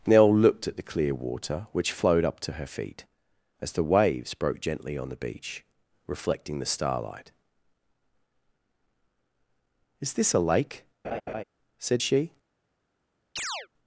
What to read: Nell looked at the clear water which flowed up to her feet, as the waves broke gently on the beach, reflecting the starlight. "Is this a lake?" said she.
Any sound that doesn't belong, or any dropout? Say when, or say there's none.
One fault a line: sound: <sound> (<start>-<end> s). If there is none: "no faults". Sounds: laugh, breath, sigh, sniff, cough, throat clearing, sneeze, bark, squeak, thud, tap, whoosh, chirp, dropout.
sound: laugh (11.0-11.4 s)
sound: chirp (13.4-13.7 s)